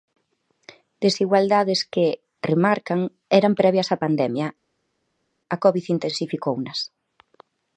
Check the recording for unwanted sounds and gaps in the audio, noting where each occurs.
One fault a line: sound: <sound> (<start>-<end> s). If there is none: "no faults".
no faults